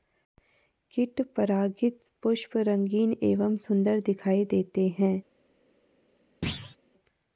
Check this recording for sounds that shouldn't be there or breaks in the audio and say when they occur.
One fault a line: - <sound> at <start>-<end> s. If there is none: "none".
- thud at 6.4-6.8 s